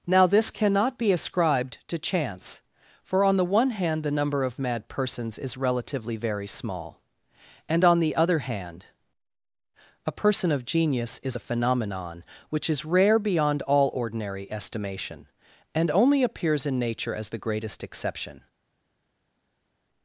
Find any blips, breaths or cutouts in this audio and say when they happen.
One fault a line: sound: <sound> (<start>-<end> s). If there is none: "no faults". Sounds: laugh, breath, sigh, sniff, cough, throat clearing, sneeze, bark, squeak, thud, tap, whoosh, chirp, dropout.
no faults